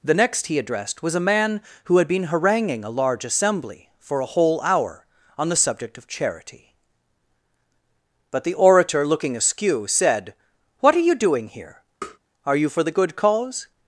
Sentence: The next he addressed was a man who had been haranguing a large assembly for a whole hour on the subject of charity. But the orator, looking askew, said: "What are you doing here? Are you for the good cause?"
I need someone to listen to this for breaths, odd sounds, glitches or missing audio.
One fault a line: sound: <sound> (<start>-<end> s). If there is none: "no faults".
sound: tap (12.0-12.2 s)